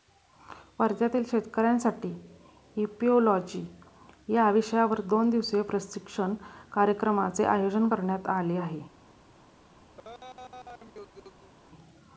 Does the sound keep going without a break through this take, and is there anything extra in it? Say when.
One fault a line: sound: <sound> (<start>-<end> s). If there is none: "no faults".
sound: laugh (10.0-11.5 s)